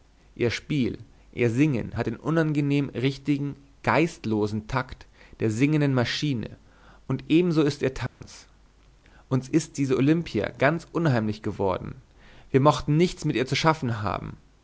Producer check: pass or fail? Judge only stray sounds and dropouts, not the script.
fail